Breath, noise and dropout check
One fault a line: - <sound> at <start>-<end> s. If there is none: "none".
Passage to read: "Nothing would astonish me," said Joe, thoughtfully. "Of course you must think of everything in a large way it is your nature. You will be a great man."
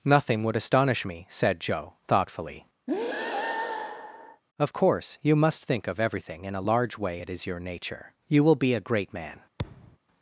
- breath at 2.9-4.4 s
- thud at 9.6-10.0 s